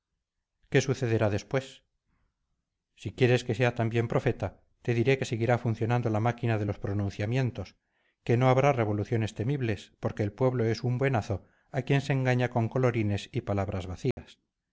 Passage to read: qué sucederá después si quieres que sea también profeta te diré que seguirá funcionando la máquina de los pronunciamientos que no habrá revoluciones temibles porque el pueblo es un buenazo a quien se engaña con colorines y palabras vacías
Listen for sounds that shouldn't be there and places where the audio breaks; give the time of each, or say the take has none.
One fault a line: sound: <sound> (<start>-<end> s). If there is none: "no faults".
sound: dropout (14.1-14.2 s)